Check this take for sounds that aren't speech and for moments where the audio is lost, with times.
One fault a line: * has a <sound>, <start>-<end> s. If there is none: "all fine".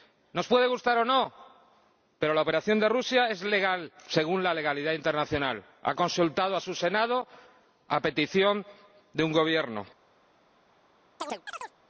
* has a chirp, 11.2-11.8 s